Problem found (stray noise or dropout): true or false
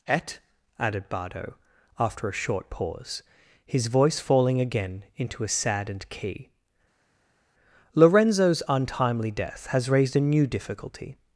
false